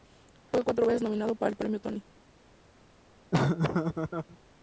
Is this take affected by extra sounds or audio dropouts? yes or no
yes